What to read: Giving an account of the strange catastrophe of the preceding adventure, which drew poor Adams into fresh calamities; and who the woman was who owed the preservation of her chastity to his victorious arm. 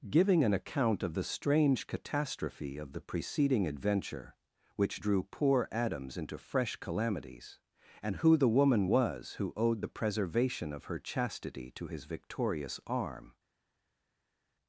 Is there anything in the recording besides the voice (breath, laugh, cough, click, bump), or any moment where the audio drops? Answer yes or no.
no